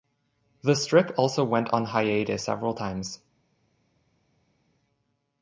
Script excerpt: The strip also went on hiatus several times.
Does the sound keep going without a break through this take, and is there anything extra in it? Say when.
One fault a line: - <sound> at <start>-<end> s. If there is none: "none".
none